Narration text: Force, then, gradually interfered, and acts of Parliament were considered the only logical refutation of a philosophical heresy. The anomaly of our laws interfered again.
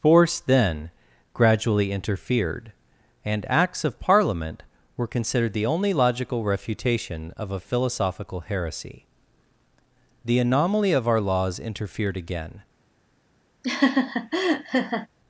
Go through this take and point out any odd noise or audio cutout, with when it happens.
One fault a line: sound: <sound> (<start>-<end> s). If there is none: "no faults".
sound: laugh (13.6-15.1 s)